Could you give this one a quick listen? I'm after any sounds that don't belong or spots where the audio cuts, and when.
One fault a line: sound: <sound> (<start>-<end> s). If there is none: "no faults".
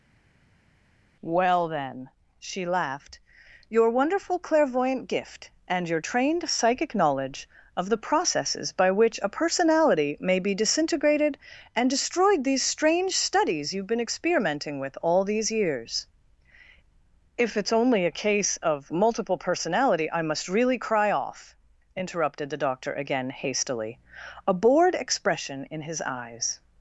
no faults